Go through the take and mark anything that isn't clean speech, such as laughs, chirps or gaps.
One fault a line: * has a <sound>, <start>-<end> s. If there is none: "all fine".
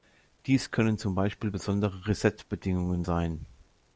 all fine